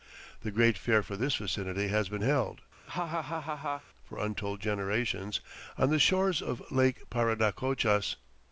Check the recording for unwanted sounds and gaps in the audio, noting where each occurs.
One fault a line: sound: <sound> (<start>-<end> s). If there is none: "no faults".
sound: laugh (2.9-3.8 s)